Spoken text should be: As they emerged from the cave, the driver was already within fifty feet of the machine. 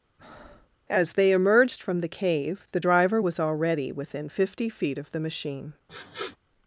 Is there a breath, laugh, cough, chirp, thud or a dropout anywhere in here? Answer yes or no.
yes